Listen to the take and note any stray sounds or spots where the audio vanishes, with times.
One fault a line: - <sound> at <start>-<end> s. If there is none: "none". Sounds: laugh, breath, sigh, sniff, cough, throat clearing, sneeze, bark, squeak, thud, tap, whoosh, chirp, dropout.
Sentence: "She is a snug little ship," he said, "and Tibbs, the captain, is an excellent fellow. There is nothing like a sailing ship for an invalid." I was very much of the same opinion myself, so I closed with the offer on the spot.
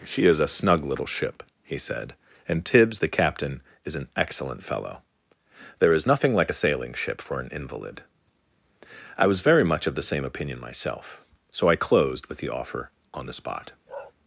- bark at 13.9-14.1 s